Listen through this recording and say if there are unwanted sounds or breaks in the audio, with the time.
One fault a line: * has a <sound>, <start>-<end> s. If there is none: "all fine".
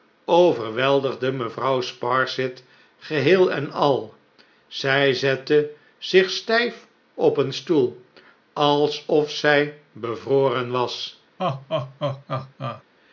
* has a laugh, 11.4-12.8 s